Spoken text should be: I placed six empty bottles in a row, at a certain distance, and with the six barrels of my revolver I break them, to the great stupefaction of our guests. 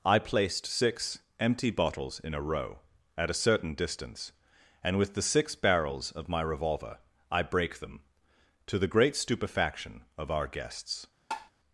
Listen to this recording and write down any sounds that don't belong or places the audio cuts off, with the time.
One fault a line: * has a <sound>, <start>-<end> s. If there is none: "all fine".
* has a tap, 11.3-11.5 s